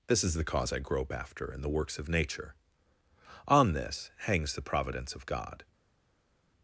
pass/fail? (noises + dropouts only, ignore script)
pass